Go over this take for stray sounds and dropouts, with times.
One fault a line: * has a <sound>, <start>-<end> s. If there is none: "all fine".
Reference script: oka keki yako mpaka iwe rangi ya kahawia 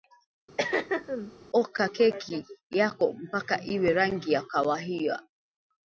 * has a throat clearing, 0.6-1.3 s